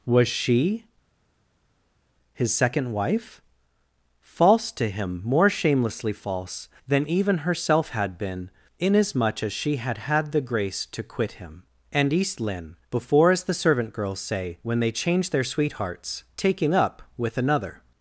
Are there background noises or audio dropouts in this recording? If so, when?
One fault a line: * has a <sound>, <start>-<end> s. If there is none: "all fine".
all fine